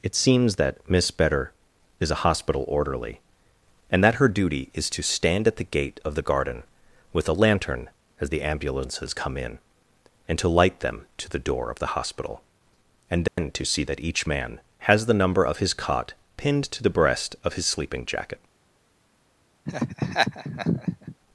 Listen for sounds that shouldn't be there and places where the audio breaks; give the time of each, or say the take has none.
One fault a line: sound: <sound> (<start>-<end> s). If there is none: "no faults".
sound: dropout (13.3-13.4 s)
sound: laugh (19.7-21.2 s)